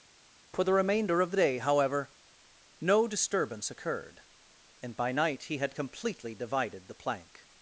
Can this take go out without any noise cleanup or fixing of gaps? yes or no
yes